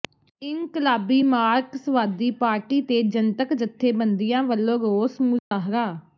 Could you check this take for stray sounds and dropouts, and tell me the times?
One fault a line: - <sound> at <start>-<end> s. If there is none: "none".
- dropout at 5.4-5.5 s